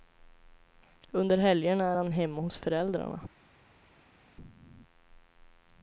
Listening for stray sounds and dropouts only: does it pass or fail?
pass